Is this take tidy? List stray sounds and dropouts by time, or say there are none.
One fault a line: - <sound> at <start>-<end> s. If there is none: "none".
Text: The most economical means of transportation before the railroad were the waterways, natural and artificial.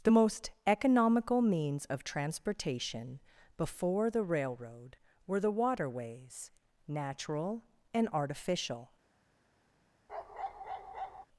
- bark at 10.1-11.3 s